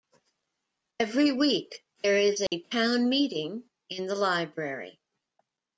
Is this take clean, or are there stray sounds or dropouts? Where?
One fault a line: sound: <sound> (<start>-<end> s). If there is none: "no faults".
sound: dropout (2.5-2.5 s)